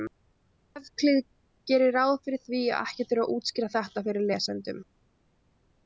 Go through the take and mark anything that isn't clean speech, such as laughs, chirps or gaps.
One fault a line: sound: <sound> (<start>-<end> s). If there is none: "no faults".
no faults